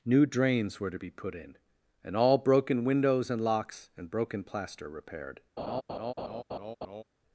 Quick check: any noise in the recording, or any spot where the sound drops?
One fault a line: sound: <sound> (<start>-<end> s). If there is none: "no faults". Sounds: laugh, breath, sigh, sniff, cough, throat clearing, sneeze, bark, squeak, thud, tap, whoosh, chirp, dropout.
sound: laugh (5.6-7.0 s)